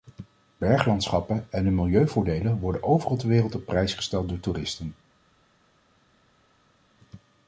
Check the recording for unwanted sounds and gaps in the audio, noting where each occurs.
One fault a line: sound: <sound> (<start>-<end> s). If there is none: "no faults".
no faults